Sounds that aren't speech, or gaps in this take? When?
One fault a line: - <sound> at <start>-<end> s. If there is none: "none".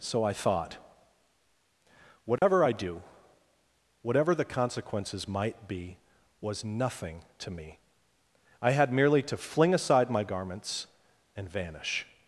- dropout at 2.4-2.4 s